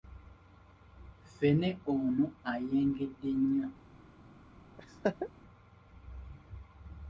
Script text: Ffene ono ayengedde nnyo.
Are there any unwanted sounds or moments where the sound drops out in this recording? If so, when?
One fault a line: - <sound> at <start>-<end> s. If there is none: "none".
- laugh at 4.8-5.3 s